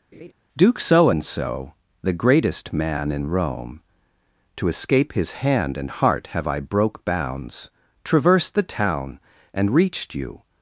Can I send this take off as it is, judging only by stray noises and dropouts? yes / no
no